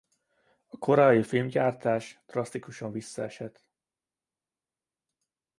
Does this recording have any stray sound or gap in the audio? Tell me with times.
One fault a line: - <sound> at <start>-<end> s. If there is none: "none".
none